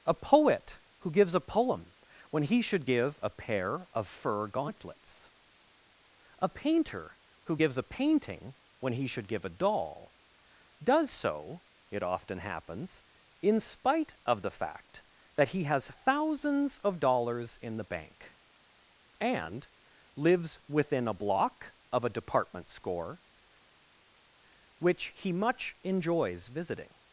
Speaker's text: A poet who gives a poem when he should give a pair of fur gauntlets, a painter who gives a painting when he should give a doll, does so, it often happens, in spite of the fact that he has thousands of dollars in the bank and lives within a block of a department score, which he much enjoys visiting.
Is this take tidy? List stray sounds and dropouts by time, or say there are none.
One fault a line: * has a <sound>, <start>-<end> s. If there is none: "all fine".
all fine